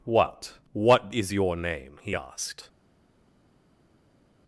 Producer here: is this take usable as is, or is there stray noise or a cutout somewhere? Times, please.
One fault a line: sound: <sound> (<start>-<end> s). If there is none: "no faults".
no faults